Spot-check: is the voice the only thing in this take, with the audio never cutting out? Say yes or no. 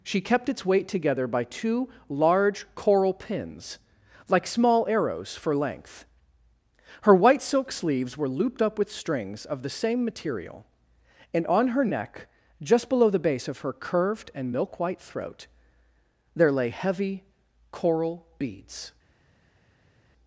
yes